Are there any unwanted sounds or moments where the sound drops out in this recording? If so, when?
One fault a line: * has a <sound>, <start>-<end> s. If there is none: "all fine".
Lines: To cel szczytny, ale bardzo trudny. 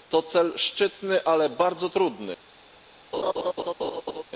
* has a laugh, 3.1-4.2 s